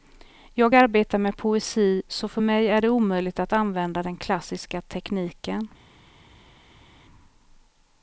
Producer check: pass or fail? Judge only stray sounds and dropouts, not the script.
pass